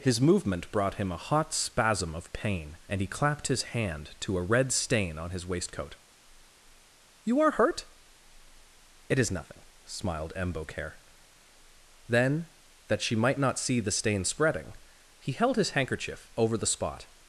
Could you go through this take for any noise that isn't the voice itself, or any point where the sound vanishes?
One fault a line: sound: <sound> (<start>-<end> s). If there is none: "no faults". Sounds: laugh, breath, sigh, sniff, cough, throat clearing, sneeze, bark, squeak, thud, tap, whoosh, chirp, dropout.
no faults